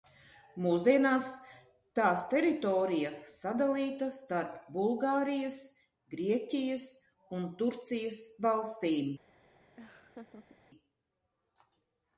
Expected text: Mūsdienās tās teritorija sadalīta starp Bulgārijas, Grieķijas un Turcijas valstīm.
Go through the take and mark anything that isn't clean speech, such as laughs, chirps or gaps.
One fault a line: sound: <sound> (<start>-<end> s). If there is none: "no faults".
sound: laugh (9.8-10.6 s)